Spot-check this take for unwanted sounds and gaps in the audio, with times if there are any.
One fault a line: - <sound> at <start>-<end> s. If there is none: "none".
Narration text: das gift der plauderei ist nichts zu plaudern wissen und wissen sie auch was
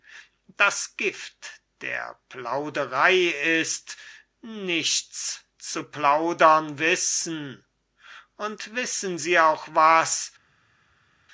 none